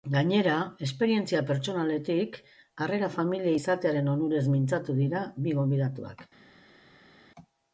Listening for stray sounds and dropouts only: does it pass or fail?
pass